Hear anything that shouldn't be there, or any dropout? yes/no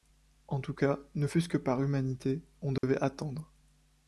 yes